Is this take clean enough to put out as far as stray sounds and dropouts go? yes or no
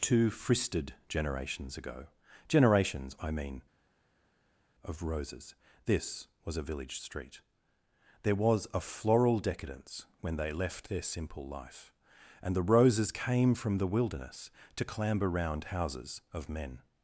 yes